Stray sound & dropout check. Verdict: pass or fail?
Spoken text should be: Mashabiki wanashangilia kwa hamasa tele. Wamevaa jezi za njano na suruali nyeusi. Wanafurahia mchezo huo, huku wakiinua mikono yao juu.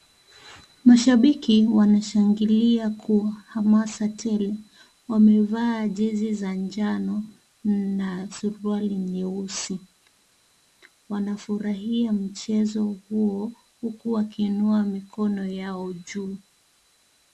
pass